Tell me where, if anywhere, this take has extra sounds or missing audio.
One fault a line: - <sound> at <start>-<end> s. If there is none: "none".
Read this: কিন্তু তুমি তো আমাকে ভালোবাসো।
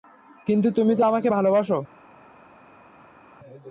none